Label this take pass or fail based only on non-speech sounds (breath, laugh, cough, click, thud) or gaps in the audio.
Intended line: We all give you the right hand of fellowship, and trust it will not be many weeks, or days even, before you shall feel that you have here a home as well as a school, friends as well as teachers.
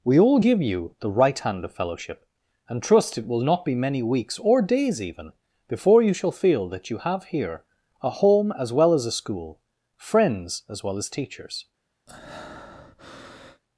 fail